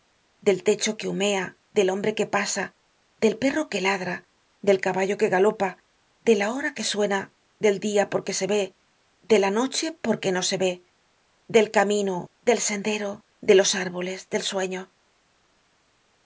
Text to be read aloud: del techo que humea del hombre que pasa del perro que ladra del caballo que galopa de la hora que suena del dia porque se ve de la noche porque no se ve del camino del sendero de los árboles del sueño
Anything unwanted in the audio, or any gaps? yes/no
no